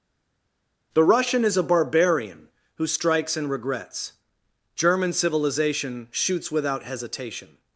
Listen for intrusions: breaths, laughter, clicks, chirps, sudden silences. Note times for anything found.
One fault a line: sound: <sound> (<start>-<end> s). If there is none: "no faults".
no faults